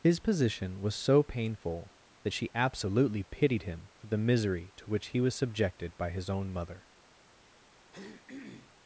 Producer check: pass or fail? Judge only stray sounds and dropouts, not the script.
fail